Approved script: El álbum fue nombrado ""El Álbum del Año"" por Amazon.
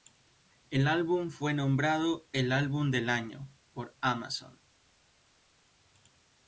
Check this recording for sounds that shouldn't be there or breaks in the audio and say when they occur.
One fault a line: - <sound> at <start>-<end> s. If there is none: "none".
none